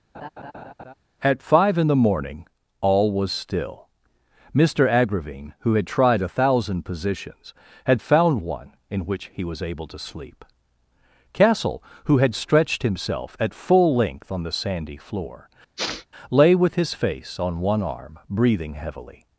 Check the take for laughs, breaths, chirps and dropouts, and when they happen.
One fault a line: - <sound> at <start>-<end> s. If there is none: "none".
- laugh at 0.1-0.9 s
- sniff at 15.8-16.1 s